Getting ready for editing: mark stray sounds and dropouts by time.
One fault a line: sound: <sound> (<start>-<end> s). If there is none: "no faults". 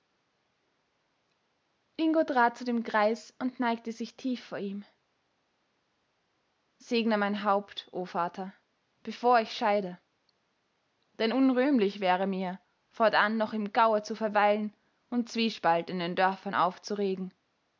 no faults